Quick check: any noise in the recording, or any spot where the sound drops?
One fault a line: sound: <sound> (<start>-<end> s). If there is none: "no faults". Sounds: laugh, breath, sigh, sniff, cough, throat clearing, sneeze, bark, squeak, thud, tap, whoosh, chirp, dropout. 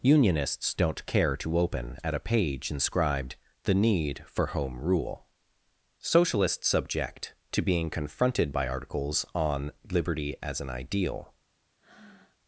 sound: breath (11.8-12.4 s)